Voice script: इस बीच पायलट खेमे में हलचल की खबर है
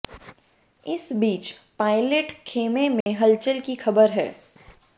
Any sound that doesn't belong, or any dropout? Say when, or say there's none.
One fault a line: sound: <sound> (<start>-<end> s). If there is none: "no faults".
sound: dropout (3.0-3.1 s)